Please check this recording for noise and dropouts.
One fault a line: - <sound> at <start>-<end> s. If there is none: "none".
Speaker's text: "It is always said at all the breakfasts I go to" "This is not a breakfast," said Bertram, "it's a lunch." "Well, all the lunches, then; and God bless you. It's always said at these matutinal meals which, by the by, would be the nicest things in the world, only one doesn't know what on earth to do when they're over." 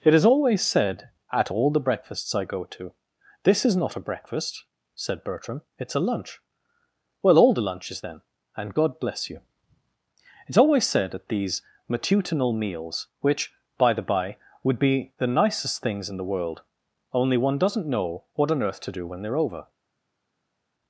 none